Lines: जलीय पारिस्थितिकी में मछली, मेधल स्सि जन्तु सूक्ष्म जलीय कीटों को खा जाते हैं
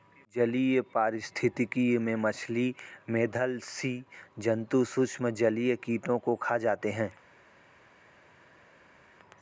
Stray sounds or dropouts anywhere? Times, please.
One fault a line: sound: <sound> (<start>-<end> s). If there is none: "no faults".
no faults